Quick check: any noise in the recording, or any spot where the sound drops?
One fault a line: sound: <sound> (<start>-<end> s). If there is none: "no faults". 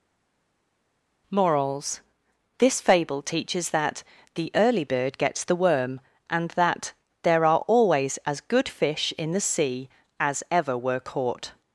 no faults